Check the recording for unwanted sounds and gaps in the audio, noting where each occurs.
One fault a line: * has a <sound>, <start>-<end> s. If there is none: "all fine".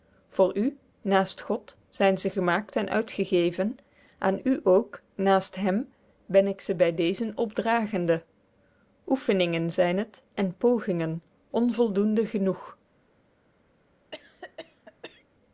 * has a cough, 14.1-15.2 s